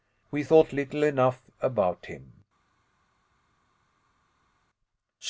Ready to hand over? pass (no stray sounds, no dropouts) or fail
pass